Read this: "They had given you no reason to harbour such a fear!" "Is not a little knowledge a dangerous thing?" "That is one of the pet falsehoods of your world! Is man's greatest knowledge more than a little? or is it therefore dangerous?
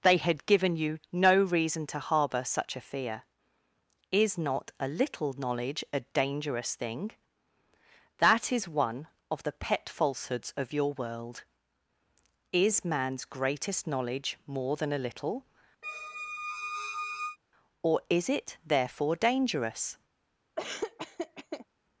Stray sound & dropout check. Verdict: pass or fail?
fail